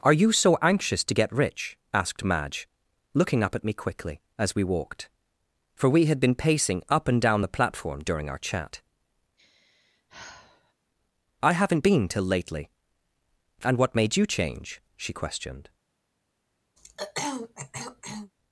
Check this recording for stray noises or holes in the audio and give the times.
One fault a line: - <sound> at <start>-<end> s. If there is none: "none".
- sigh at 9.4-10.7 s
- throat clearing at 16.8-18.3 s